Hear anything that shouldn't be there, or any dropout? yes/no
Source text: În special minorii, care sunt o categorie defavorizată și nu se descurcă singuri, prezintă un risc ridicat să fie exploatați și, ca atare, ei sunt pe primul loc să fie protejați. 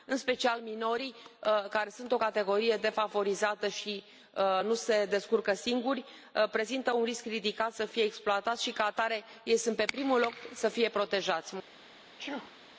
yes